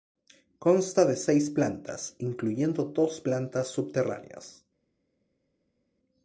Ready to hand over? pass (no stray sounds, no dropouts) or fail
pass